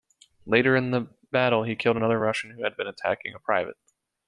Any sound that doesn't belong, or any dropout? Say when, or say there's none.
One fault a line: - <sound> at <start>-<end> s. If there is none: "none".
none